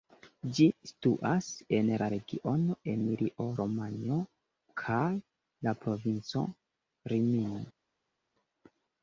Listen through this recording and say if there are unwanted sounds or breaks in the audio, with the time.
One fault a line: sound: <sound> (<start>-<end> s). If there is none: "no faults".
no faults